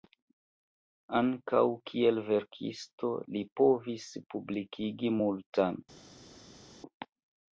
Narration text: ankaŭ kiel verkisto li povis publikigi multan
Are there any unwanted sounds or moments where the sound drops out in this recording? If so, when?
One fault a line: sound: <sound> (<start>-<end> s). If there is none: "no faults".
no faults